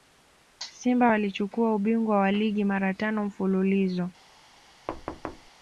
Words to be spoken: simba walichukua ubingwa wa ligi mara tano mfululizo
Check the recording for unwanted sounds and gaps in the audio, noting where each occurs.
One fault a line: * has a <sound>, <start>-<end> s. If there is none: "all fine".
* has a thud, 4.9-5.5 s